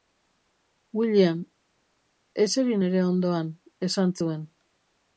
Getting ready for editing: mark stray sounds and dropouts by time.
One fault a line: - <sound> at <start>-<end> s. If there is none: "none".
none